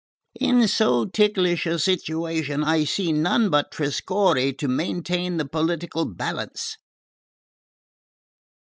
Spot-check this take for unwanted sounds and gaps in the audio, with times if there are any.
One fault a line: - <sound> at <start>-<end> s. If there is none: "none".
none